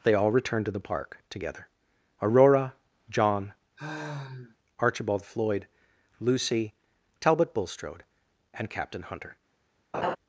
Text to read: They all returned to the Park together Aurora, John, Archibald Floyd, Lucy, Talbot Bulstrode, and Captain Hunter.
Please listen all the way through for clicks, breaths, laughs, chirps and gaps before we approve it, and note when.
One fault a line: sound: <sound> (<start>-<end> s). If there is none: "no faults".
sound: sigh (3.8-4.6 s)
sound: laugh (9.9-10.2 s)